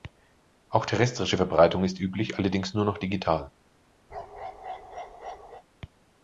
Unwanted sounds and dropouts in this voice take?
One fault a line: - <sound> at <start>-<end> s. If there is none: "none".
- bark at 4.1-5.6 s